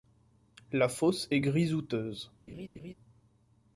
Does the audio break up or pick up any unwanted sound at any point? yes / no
yes